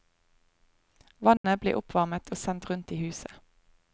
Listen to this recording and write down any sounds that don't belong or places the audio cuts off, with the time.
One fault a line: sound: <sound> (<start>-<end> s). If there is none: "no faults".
sound: dropout (1.4-1.4 s)